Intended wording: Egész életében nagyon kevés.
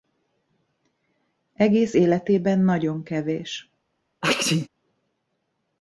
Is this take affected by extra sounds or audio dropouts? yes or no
yes